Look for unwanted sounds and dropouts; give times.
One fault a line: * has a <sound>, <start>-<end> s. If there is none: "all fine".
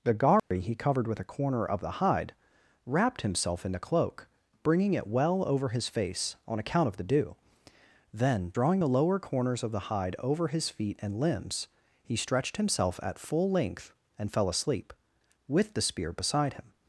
* has a dropout, 0.4-0.5 s